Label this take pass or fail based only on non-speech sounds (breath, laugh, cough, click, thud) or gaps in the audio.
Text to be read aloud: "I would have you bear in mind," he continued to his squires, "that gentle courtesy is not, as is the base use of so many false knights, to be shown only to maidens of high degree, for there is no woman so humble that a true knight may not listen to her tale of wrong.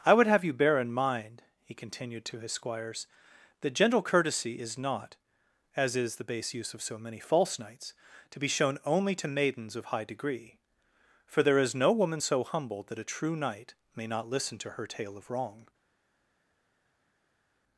pass